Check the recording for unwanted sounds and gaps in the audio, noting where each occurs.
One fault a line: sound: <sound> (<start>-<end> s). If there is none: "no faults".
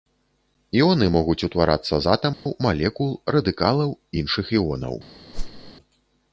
sound: dropout (2.3-2.5 s)
sound: whoosh (5.3-5.7 s)